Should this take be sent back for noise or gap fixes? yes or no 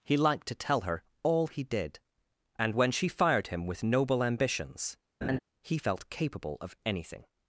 yes